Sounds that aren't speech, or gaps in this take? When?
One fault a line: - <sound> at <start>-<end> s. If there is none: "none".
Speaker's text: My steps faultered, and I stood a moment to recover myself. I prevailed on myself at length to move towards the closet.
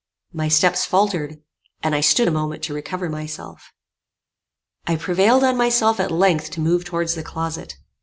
none